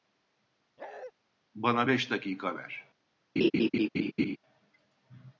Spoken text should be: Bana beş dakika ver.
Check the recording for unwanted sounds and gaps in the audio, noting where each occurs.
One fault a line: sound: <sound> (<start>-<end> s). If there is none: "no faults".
sound: bark (0.8-1.1 s)
sound: laugh (3.4-4.4 s)